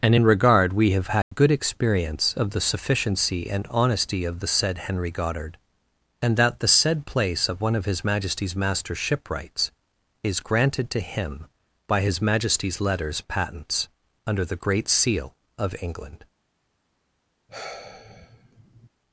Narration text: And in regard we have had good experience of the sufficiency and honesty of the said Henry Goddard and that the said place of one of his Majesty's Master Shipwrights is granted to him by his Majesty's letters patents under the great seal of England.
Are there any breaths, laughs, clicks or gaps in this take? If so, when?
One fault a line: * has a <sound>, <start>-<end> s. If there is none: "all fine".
* has a dropout, 1.2-1.3 s
* has a sigh, 17.5-18.9 s